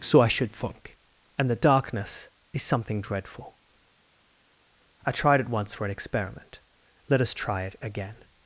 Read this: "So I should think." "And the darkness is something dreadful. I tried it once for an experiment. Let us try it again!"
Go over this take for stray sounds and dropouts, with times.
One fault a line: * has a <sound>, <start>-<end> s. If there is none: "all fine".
all fine